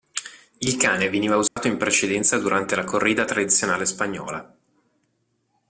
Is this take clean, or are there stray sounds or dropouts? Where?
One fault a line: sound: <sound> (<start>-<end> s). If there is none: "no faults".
sound: dropout (1.5-1.6 s)